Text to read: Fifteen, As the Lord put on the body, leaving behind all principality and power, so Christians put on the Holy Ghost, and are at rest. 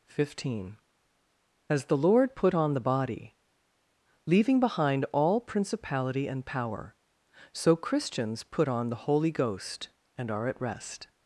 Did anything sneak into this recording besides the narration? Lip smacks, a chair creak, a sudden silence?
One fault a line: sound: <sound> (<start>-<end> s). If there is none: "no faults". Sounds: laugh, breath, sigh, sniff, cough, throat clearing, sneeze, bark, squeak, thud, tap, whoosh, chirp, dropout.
no faults